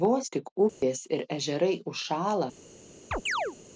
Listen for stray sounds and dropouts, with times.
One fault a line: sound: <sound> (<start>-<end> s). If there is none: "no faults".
sound: dropout (0.7-0.8 s)
sound: chirp (3.1-3.6 s)